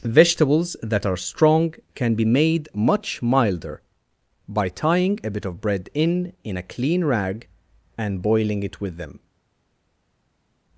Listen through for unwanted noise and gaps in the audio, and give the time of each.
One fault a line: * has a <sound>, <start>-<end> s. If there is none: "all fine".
all fine